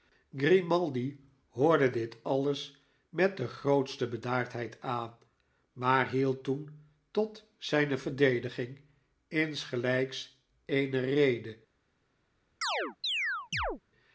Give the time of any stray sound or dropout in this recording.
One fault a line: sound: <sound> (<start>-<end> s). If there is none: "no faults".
sound: chirp (12.6-13.8 s)